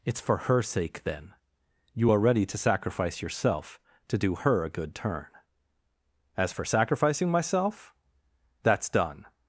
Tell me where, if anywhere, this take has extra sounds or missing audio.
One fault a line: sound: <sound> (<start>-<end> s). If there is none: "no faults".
no faults